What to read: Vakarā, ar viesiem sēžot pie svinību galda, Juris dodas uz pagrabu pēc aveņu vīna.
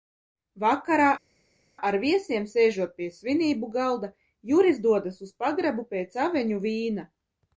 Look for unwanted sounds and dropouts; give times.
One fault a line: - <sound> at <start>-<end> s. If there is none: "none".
none